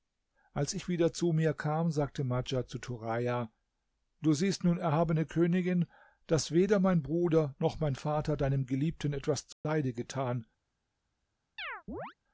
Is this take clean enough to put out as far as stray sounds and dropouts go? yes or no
no